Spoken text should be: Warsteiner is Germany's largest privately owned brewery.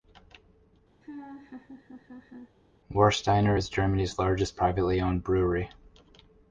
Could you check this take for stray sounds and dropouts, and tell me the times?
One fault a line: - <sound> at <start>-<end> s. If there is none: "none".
- laugh at 1.0-2.6 s